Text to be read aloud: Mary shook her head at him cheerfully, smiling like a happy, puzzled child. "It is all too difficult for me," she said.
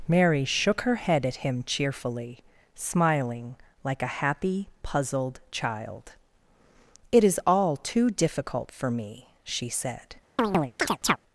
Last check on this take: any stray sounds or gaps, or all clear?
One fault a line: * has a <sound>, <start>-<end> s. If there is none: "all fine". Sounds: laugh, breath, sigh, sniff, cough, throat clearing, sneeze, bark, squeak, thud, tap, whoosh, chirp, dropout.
* has a chirp, 10.4-11.2 s